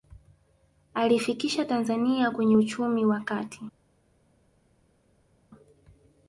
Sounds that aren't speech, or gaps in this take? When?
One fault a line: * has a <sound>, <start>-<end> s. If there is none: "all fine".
all fine